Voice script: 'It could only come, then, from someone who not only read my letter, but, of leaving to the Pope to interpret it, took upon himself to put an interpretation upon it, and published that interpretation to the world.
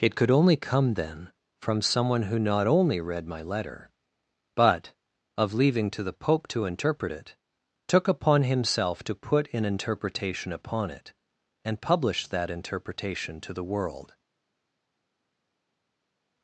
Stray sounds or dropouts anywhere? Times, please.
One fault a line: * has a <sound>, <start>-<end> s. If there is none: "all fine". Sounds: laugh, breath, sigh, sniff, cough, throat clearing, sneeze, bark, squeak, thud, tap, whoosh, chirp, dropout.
all fine